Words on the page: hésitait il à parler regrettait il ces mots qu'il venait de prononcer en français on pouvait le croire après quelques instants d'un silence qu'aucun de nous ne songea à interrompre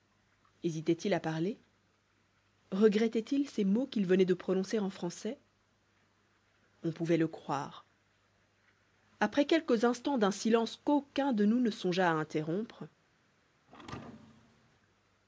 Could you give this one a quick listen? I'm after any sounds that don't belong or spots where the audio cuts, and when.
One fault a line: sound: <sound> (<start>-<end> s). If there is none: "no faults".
sound: thud (13.7-14.8 s)